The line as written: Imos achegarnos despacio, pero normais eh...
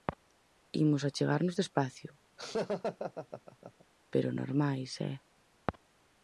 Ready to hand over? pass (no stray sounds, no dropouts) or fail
fail